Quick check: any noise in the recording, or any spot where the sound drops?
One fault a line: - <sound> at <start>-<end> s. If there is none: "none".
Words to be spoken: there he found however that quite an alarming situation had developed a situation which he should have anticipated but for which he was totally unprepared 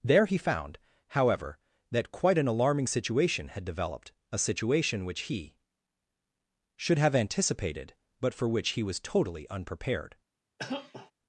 - cough at 10.6-11.1 s